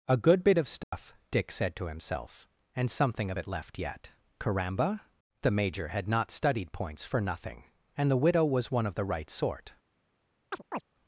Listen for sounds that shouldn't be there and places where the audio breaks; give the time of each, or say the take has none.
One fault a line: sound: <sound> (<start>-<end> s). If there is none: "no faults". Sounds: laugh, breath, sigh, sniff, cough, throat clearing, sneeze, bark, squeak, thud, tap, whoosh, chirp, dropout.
sound: dropout (0.8-0.9 s)
sound: chirp (10.5-10.8 s)